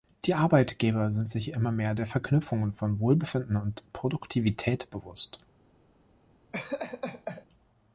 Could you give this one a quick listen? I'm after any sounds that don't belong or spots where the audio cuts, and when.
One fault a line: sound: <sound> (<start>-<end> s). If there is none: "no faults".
sound: laugh (6.5-7.5 s)